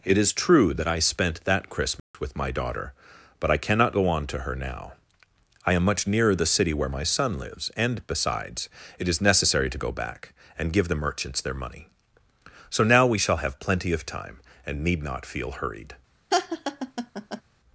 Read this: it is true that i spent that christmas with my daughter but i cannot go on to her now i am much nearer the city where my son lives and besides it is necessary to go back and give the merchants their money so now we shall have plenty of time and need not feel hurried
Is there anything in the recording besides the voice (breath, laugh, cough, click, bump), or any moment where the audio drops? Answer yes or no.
yes